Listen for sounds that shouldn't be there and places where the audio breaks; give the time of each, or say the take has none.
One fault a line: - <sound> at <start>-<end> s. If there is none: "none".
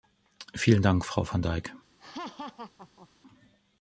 - laugh at 2.0-3.1 s